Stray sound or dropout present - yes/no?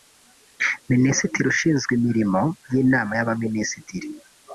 no